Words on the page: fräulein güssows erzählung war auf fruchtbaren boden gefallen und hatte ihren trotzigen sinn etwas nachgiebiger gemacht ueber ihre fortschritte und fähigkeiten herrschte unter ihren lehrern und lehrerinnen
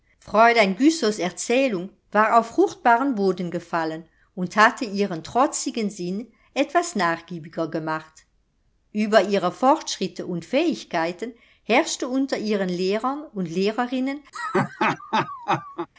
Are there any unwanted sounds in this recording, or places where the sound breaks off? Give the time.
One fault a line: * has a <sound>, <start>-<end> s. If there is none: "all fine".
* has a laugh, 14.3-15.9 s